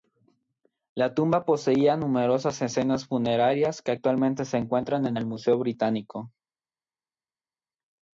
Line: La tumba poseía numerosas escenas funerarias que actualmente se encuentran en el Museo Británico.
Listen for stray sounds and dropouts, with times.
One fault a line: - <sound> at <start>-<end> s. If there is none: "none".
none